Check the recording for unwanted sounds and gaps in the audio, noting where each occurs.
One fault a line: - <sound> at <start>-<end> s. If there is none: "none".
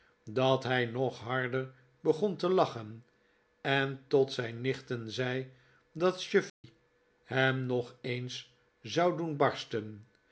- dropout at 6.5-6.6 s